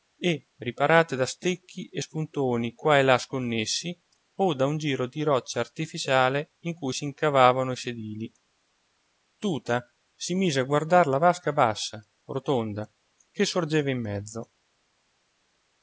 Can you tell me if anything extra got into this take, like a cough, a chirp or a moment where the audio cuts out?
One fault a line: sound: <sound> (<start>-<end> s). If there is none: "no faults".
no faults